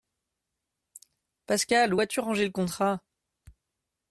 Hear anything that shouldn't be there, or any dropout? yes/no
no